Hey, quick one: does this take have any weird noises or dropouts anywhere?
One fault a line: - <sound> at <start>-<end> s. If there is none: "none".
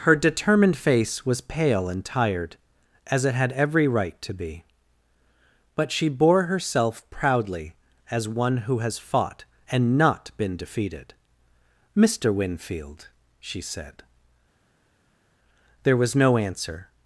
none